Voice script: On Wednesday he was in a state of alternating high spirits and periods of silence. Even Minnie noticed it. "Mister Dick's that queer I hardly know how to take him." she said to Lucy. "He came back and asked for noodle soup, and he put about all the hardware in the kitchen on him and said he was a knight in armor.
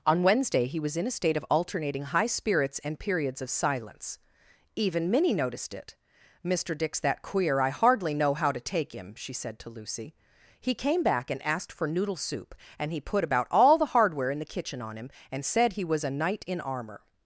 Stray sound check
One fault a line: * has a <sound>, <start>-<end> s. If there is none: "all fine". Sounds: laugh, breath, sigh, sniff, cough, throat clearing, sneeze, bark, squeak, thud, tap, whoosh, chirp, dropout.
all fine